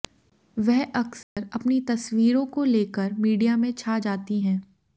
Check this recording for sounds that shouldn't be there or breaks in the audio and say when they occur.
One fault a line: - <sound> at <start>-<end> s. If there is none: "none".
- dropout at 1.2-1.4 s